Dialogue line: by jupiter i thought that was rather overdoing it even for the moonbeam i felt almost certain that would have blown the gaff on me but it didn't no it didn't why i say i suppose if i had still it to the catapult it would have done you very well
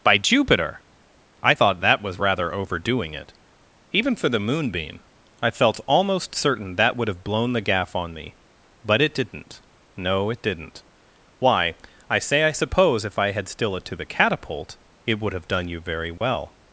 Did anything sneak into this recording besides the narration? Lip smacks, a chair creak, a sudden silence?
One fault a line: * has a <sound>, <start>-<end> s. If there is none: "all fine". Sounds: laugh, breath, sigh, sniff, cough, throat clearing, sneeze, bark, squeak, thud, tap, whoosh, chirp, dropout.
* has a dropout, 16.2-16.2 s